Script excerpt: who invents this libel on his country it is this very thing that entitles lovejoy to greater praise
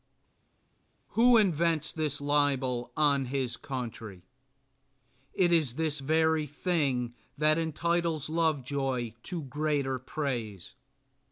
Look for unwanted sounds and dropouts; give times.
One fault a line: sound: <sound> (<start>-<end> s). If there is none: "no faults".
no faults